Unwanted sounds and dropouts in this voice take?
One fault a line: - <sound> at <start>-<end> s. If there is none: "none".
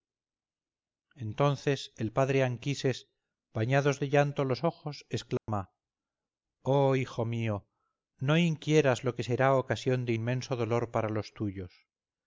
- dropout at 5.4-5.5 s